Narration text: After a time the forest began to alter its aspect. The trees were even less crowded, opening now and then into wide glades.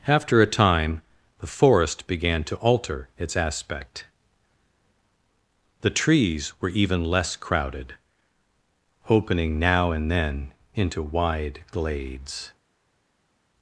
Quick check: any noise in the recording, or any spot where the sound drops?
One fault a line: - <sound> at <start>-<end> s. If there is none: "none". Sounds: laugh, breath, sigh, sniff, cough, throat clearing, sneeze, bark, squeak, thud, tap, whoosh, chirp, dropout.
none